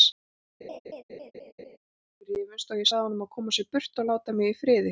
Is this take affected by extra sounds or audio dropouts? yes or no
yes